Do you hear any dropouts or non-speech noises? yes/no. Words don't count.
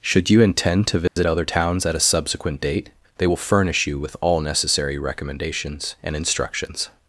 yes